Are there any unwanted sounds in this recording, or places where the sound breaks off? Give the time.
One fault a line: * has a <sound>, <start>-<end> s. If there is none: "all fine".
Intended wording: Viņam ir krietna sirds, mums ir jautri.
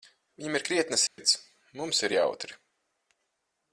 * has a dropout, 1.1-1.2 s